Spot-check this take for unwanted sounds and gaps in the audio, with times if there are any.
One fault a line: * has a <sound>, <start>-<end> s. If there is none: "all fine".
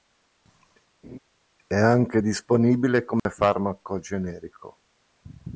* has a laugh, 1.0-1.2 s
* has a dropout, 3.2-3.3 s